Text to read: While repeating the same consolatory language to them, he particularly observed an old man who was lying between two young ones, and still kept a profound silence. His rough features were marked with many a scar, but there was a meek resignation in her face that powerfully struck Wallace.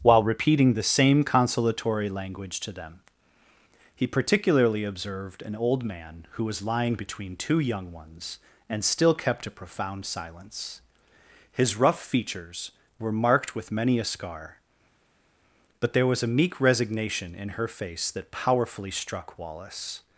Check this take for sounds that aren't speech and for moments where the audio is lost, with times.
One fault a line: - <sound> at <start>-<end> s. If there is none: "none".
none